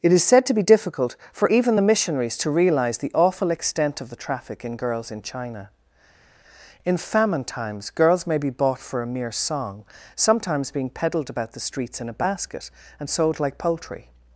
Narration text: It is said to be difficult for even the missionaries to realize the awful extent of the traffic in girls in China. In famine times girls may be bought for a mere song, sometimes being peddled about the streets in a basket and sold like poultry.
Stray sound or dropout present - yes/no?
no